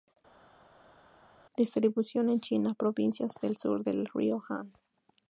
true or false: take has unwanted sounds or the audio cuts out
false